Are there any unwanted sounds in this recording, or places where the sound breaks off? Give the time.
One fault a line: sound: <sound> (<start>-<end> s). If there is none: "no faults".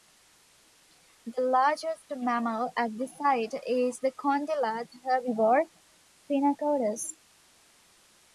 no faults